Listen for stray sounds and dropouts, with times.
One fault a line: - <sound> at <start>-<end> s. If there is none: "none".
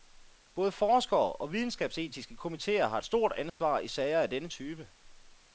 - dropout at 3.5-3.6 s